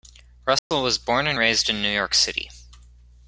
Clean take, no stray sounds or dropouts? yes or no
no